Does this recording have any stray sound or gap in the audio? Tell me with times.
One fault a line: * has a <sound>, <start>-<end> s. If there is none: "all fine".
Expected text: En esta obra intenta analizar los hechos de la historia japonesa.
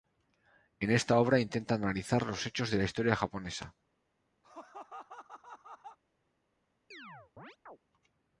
* has a laugh, 4.4-6.0 s
* has a chirp, 6.9-7.8 s